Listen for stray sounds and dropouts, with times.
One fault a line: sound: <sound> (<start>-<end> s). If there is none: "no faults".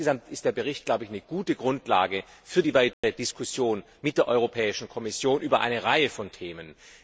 sound: dropout (2.9-3.0 s)